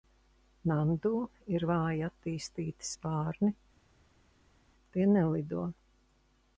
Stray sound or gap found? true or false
false